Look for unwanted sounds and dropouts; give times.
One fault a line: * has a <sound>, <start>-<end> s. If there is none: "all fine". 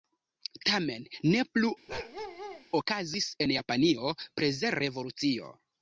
* has a bark, 1.9-2.6 s